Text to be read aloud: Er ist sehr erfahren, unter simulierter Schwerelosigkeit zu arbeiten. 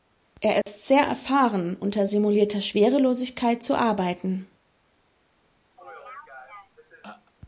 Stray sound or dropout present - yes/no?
yes